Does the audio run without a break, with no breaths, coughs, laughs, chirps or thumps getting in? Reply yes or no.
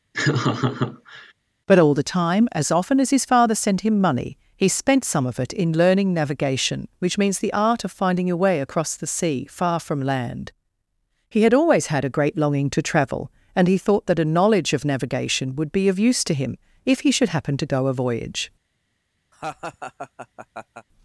no